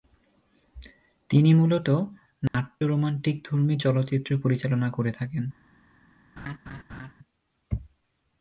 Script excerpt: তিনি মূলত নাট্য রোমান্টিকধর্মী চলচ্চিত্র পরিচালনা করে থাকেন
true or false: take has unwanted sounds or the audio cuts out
true